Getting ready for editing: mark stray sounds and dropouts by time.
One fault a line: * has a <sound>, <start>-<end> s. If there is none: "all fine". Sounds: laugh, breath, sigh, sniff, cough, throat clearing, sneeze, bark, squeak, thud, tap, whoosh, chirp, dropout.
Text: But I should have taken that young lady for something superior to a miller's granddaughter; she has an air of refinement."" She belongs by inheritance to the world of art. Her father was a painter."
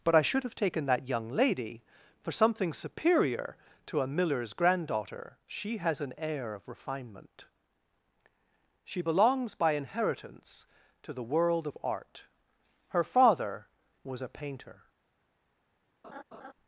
* has a laugh, 16.0-16.5 s